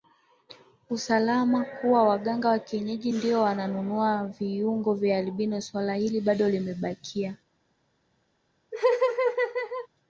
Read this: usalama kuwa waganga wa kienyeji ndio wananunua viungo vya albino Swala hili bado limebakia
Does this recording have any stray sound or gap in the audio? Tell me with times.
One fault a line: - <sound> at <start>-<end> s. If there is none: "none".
- laugh at 8.7-9.9 s